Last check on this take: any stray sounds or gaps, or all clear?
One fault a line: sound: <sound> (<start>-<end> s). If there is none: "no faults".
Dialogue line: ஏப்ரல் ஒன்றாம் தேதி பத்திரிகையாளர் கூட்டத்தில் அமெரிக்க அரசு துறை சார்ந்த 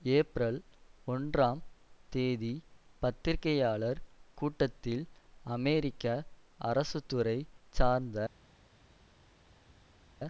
no faults